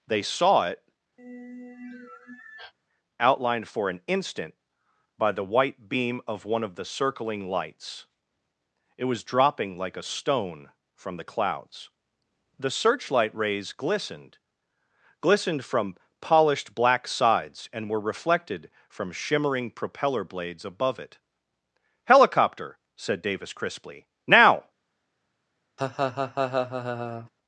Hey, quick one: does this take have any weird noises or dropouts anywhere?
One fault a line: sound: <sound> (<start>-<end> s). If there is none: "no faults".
sound: sigh (1.2-2.7 s)
sound: laugh (25.8-27.3 s)